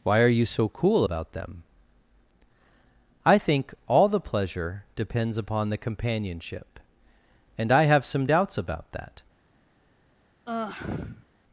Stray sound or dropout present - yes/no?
yes